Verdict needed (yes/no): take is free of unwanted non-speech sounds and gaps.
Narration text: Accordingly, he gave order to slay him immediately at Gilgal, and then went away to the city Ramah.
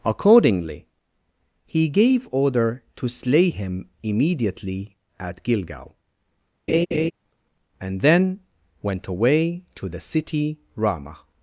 no